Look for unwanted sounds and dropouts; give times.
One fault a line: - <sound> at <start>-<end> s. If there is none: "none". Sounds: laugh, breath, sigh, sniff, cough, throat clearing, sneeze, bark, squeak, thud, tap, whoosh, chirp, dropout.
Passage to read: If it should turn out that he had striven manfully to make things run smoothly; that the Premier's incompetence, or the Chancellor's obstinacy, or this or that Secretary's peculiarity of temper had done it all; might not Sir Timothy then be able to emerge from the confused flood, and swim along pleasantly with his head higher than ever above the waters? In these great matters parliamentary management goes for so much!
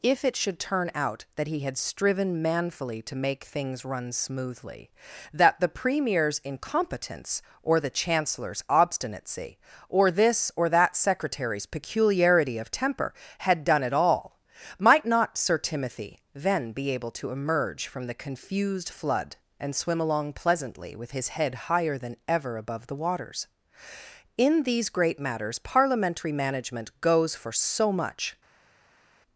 none